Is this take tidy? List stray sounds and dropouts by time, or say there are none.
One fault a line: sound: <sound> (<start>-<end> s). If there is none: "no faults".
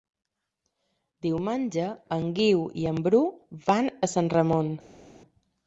no faults